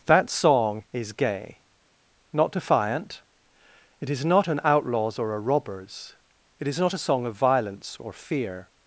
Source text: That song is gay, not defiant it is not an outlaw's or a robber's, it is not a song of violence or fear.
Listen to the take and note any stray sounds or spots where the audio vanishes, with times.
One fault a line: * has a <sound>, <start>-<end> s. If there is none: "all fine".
all fine